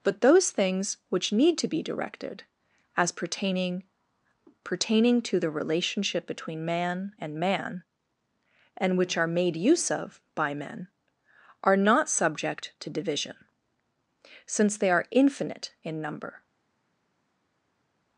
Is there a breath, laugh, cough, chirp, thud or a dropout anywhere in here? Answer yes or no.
no